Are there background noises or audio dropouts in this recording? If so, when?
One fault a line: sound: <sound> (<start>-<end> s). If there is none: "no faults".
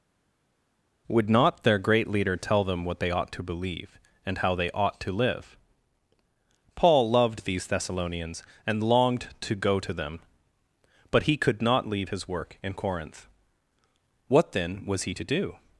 no faults